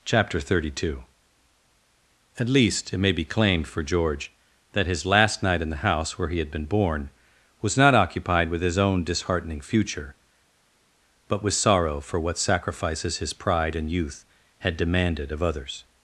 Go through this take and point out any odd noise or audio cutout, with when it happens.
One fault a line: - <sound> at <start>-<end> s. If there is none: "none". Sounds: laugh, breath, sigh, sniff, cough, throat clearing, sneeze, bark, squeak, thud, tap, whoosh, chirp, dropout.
none